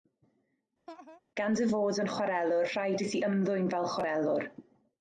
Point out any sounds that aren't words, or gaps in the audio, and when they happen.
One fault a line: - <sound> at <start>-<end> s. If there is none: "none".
- laugh at 0.9-1.2 s